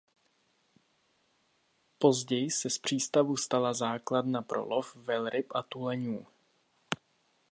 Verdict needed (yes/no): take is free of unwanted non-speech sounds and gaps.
yes